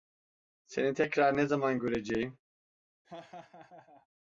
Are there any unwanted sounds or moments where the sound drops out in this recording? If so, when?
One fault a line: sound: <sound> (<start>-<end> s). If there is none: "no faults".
sound: laugh (3.0-4.1 s)